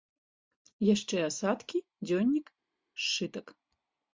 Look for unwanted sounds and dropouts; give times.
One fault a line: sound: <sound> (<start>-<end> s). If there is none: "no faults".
no faults